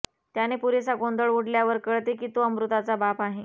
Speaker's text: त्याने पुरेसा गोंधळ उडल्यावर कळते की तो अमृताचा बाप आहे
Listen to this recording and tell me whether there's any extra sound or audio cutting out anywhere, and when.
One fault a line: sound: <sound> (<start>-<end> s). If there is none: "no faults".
no faults